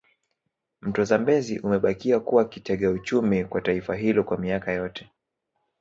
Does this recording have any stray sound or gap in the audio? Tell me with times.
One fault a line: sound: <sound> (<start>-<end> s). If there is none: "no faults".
no faults